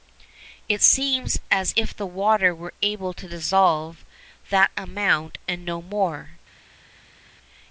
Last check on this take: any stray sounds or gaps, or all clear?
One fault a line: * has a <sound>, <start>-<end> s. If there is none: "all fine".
all fine